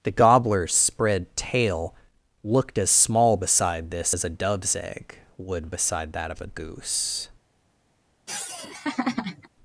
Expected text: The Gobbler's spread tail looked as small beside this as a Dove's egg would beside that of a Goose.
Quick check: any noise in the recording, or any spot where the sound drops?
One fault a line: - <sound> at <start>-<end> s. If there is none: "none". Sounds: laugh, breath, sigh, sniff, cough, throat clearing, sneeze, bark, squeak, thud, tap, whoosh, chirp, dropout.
- laugh at 8.3-9.5 s